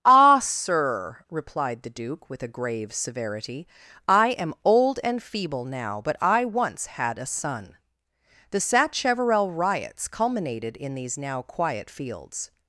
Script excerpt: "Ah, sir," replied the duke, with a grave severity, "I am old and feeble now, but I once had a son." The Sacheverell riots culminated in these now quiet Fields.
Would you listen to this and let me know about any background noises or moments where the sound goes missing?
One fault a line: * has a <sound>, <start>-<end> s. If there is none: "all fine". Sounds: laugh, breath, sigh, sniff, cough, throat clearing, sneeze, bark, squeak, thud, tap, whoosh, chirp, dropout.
all fine